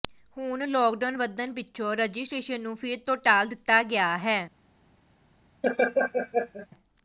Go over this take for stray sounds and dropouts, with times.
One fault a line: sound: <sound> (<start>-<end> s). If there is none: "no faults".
sound: laugh (5.6-6.7 s)